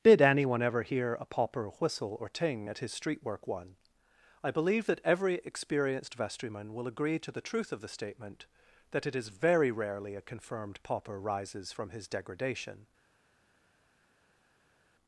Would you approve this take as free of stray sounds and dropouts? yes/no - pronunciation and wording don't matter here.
yes